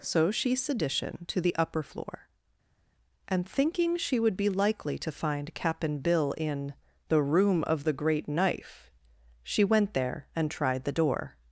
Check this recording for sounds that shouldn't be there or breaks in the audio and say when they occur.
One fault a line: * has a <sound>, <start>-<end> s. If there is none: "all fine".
all fine